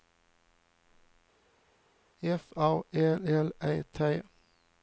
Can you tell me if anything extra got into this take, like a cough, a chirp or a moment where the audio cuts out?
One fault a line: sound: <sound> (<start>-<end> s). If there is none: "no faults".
no faults